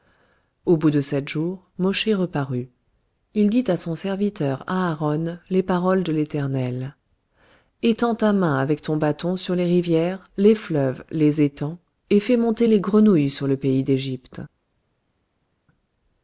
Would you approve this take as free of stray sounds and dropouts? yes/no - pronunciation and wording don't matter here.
yes